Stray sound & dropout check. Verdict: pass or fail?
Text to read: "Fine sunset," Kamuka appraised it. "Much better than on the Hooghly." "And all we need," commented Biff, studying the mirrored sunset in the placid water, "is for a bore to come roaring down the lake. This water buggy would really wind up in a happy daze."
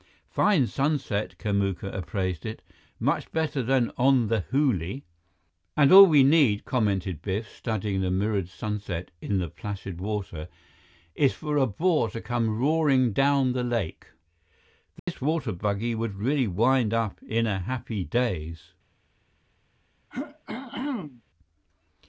fail